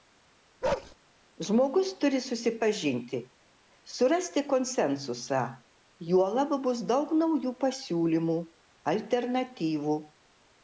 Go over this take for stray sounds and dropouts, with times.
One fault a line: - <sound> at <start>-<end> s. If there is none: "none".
- bark at 0.6-1.0 s